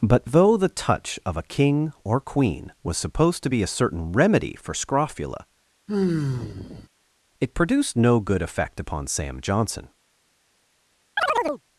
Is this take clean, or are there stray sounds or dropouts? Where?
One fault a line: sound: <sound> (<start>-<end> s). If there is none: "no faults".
sound: sigh (5.9-6.9 s)
sound: chirp (11.2-11.6 s)